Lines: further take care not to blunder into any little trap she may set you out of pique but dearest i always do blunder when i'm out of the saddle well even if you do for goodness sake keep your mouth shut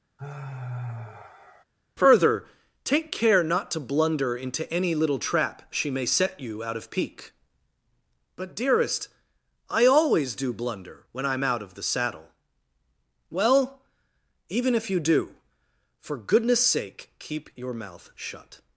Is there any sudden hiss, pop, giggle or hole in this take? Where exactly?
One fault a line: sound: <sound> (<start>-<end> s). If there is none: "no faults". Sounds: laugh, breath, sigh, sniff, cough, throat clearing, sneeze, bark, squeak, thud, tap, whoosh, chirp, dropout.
sound: sigh (0.2-1.6 s)